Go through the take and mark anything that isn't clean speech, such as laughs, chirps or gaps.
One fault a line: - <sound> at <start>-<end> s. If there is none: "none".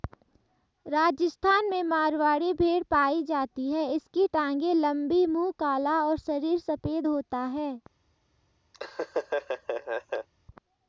- laugh at 8.7-10.3 s